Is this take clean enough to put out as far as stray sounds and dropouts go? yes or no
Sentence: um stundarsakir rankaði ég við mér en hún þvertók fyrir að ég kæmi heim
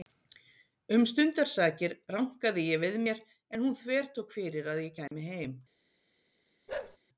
no